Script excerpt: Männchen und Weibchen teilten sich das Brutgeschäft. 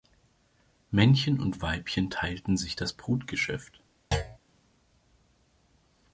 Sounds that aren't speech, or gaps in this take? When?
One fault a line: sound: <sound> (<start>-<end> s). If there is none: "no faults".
sound: thud (4.1-4.4 s)